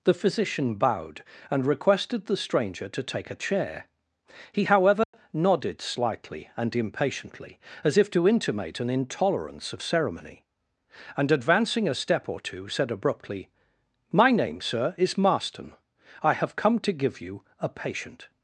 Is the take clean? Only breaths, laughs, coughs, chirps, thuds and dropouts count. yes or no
no